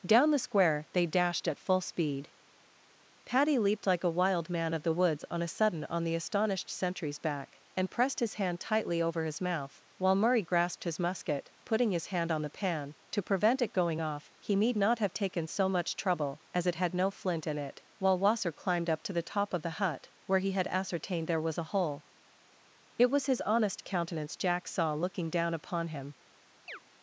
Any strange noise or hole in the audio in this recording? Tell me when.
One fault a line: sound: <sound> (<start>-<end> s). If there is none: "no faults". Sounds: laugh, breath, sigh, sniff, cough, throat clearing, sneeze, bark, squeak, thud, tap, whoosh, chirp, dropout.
sound: chirp (26.7-26.8 s)